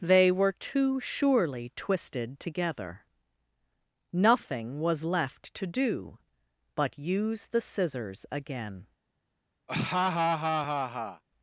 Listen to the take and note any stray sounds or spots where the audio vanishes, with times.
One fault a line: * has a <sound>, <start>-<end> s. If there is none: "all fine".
* has a laugh, 9.7-11.2 s